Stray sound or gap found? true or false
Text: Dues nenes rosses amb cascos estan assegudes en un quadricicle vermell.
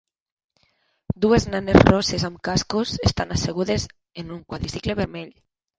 false